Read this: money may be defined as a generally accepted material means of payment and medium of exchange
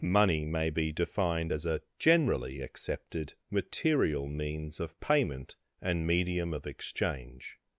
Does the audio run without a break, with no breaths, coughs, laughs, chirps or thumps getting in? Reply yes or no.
yes